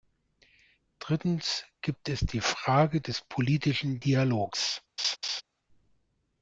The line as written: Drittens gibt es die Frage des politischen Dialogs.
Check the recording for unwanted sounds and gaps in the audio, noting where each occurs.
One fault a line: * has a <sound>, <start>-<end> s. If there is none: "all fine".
* has a laugh, 5.0-5.4 s